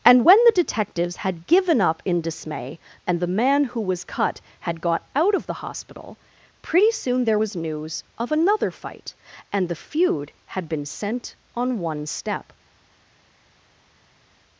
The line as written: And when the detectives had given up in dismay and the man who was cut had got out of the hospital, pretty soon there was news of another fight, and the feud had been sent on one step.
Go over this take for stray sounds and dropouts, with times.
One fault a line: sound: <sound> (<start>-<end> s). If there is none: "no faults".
no faults